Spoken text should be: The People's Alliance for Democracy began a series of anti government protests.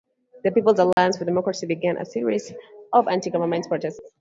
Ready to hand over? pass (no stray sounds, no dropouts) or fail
fail